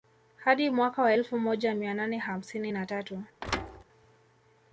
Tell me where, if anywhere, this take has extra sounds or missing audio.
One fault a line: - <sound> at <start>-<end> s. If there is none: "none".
- thud at 3.4-3.8 s